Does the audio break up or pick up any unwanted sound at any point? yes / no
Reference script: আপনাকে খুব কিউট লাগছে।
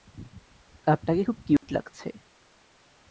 yes